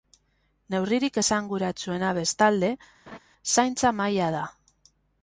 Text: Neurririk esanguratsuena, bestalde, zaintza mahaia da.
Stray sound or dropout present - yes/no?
yes